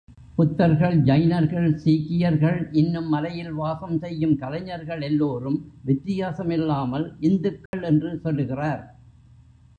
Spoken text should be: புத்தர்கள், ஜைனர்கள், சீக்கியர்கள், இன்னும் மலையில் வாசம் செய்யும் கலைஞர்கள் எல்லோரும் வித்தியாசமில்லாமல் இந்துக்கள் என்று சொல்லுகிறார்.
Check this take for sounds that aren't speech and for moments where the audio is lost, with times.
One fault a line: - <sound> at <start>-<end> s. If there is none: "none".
- dropout at 7.7-7.7 s